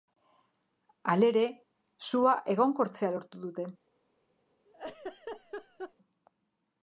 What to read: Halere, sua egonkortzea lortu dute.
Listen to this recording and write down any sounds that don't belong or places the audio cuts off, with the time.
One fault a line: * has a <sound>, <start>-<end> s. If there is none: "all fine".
* has a laugh, 4.7-5.9 s